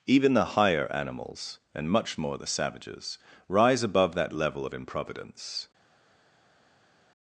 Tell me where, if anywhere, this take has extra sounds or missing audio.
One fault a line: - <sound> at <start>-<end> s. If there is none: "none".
none